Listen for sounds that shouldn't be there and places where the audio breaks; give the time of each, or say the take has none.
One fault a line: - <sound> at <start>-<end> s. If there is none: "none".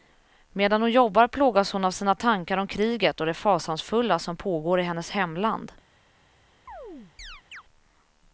- chirp at 6.7-7.6 s